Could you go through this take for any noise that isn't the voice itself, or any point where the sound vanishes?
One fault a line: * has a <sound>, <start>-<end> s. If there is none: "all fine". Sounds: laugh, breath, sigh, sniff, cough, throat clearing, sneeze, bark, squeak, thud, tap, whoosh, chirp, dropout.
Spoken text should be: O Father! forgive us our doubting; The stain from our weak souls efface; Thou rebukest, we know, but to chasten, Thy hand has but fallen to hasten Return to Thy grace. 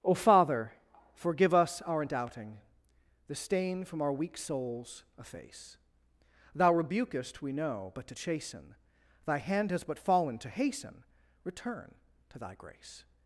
all fine